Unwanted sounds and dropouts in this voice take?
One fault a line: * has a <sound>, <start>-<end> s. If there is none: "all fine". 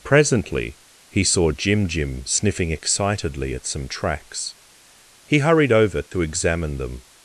* has a dropout, 6.1-6.1 s